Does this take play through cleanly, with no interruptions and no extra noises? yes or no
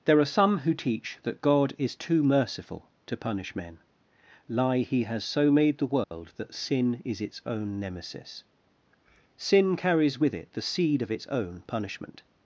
no